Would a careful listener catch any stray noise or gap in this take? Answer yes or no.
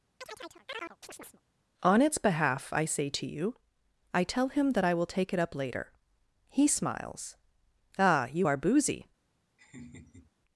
yes